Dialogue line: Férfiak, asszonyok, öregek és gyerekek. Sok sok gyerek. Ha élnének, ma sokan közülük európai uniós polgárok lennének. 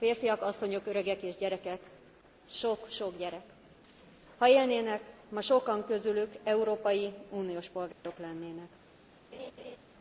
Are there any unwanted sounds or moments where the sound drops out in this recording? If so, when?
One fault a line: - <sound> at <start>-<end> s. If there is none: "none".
- dropout at 7.9-8.0 s
- laugh at 9.3-9.8 s